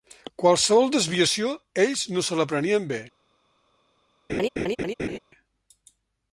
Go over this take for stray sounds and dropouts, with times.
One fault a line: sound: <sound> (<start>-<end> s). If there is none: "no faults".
sound: laugh (4.3-5.2 s)